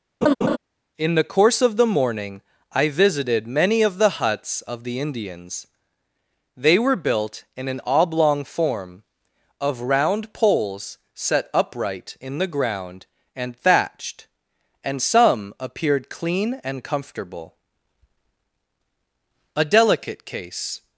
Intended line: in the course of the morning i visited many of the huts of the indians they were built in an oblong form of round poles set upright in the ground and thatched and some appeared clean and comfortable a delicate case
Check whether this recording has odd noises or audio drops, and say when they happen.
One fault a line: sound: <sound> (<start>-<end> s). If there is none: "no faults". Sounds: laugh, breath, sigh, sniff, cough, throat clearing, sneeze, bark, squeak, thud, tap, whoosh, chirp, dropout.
sound: laugh (0.2-0.6 s)